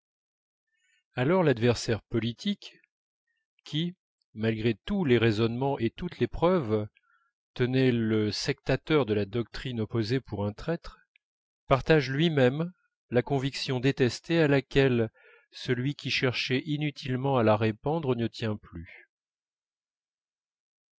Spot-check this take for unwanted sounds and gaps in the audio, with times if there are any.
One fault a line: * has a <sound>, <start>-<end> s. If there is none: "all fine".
all fine